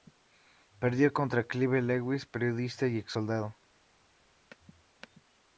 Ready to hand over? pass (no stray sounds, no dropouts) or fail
pass